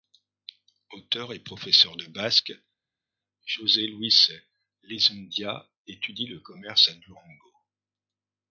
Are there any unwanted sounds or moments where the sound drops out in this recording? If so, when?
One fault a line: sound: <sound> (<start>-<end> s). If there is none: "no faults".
no faults